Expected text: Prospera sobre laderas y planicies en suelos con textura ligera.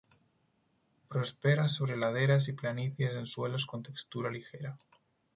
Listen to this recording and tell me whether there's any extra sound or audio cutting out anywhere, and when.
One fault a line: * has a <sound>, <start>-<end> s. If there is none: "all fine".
all fine